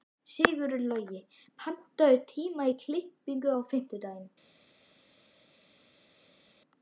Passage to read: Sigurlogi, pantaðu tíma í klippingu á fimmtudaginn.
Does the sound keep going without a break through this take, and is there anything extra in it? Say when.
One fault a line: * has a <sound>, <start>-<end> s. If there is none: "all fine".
all fine